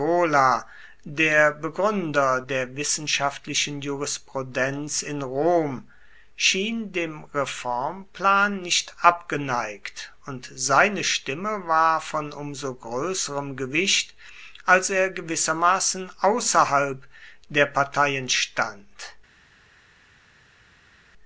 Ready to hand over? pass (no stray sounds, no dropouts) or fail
pass